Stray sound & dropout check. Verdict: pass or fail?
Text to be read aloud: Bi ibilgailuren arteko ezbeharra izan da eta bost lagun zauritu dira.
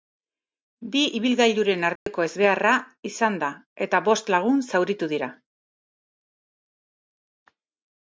fail